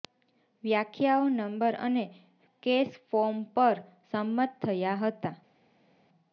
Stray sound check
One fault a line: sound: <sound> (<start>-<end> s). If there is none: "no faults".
no faults